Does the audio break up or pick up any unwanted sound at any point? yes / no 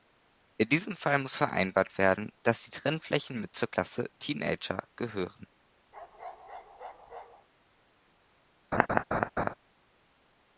yes